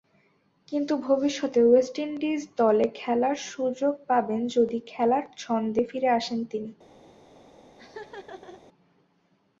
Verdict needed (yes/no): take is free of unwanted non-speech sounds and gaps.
no